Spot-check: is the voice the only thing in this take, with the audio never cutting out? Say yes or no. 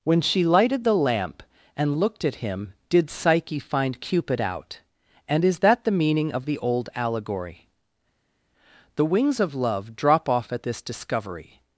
yes